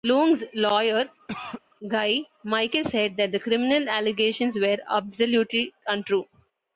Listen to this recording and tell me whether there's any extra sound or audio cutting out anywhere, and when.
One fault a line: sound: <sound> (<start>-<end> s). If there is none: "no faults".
sound: cough (1.3-1.6 s)